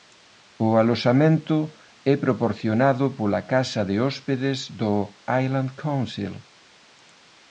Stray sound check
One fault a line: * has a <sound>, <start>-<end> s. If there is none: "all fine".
all fine